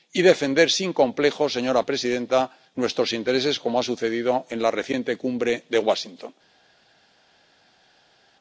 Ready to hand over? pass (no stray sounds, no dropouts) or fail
pass